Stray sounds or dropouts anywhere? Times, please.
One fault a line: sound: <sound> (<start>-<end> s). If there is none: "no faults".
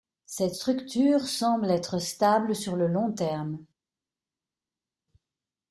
no faults